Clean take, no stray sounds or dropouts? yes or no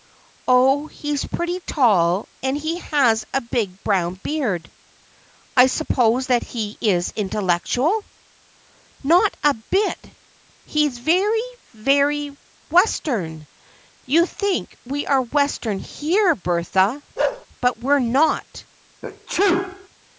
no